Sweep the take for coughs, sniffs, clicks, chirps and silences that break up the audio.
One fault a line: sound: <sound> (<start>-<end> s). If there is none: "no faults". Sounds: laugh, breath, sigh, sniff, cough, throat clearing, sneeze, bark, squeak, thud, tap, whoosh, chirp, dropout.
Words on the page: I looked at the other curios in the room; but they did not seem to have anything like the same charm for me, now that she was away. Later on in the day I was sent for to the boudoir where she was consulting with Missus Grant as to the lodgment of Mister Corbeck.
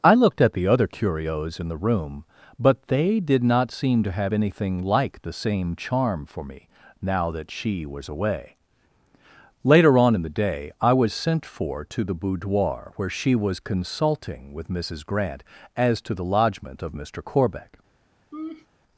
sound: laugh (18.3-18.7 s)